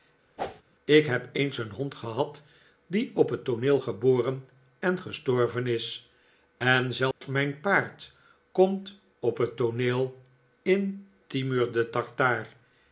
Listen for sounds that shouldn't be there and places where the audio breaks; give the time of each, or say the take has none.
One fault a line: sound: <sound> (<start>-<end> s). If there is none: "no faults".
sound: whoosh (0.4-0.6 s)
sound: dropout (7.1-7.2 s)